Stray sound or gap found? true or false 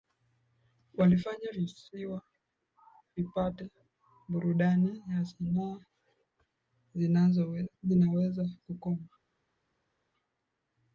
false